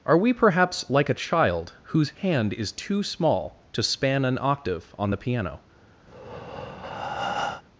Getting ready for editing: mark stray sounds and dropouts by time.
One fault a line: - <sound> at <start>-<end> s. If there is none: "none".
- breath at 6.1-7.6 s